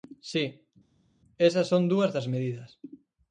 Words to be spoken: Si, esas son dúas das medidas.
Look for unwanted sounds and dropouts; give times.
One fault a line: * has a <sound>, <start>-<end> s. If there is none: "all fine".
all fine